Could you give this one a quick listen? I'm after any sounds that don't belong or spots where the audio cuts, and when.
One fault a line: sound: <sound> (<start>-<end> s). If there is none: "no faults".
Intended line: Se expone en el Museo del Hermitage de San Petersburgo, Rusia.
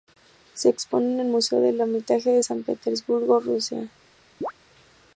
sound: chirp (4.4-4.5 s)